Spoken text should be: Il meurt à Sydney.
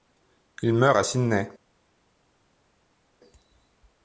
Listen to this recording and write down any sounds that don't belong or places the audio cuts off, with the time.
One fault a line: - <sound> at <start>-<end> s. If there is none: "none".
none